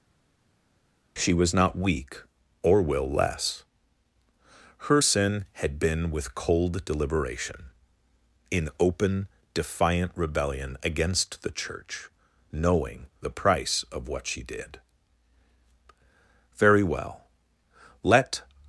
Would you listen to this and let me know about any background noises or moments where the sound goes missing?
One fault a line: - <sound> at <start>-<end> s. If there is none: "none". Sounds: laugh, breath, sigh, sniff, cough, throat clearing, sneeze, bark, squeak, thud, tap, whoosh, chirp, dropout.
none